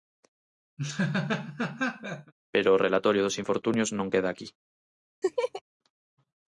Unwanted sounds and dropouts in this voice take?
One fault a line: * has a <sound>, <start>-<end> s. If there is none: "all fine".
* has a laugh, 0.8-2.3 s
* has a laugh, 5.2-5.6 s